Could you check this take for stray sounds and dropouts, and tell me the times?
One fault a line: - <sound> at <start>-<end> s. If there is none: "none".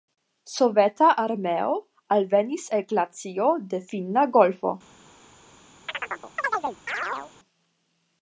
- chirp at 5.9-7.3 s